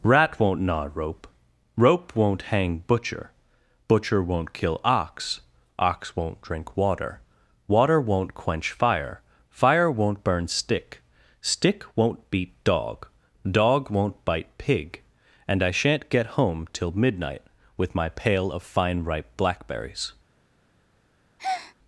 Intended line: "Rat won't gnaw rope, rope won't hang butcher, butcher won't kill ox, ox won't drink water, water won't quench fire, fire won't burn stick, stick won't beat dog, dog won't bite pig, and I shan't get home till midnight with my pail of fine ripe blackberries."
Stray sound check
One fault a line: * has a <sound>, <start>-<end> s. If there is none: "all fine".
* has a breath, 21.4-21.7 s